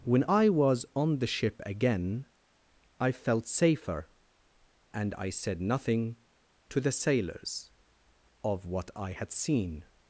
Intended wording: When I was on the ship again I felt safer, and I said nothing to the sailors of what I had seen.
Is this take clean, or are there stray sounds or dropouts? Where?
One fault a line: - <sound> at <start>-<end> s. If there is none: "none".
none